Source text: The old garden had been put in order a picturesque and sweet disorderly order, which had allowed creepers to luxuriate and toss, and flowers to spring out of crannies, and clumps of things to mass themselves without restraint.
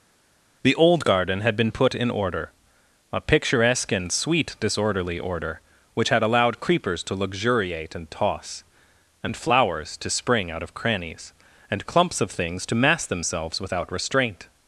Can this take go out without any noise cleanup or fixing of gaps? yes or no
yes